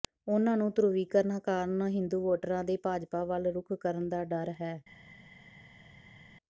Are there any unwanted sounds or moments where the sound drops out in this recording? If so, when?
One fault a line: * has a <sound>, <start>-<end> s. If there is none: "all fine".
all fine